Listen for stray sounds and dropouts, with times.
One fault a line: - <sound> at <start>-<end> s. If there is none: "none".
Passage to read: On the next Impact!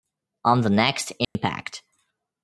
- dropout at 1.2-1.4 s